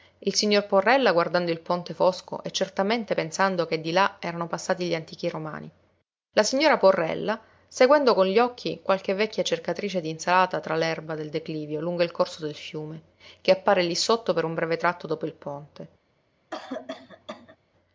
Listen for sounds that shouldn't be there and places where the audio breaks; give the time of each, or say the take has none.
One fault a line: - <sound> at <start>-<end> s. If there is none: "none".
- cough at 16.5-17.6 s